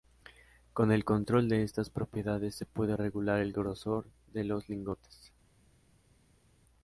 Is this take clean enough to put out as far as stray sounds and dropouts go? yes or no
yes